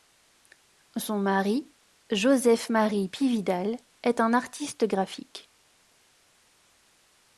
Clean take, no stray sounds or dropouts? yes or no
yes